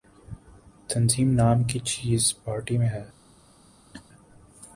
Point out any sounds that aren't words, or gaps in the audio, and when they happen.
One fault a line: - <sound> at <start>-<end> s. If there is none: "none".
- laugh at 3.9-4.0 s